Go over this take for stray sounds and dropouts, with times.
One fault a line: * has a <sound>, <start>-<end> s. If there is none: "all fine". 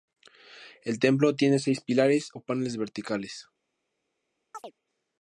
* has a chirp, 4.5-4.7 s